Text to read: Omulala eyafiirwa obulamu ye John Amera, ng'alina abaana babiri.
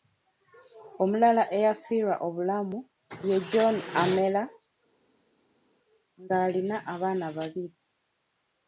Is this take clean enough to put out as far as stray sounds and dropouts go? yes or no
yes